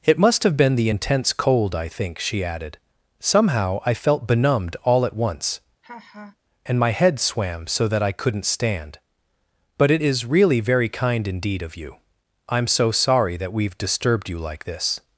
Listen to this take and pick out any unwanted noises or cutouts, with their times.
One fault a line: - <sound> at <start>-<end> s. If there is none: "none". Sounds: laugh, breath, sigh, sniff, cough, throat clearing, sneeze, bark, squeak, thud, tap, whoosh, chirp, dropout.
- laugh at 5.8-6.4 s